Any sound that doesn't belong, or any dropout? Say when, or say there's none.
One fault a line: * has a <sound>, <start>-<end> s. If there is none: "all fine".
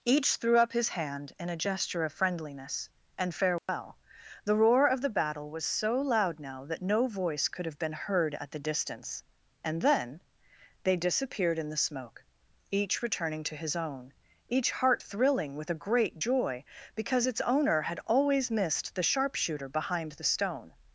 * has a dropout, 3.6-3.7 s